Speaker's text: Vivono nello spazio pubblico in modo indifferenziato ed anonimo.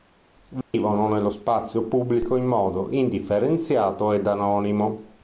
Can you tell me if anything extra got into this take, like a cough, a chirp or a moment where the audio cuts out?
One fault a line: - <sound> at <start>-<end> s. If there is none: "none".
- dropout at 0.6-0.7 s